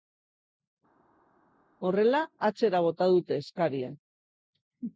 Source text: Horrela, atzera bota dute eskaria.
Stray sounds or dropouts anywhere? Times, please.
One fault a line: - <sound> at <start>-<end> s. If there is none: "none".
none